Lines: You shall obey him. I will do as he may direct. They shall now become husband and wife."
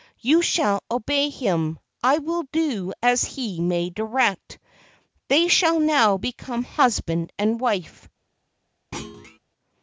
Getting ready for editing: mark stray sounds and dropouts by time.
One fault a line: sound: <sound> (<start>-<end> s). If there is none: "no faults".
sound: thud (8.9-9.4 s)